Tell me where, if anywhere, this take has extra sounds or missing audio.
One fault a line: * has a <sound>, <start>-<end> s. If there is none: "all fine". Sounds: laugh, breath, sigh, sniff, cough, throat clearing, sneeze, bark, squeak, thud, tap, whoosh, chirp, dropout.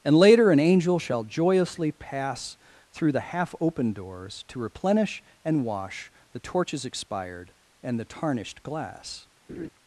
* has a laugh, 9.5-9.7 s